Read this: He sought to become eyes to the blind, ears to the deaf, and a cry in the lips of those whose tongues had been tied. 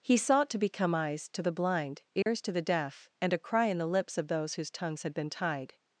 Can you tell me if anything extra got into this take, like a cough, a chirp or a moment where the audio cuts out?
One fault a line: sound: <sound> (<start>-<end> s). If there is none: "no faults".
sound: dropout (2.2-2.3 s)